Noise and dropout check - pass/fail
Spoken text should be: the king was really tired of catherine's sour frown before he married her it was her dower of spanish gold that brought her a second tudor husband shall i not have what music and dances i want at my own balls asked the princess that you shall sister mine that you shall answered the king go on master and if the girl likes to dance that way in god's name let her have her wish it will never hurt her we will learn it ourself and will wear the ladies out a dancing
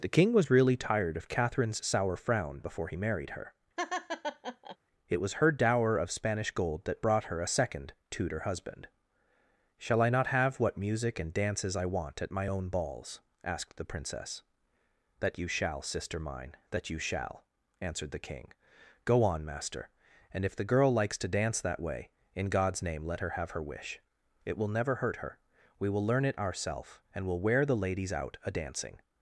fail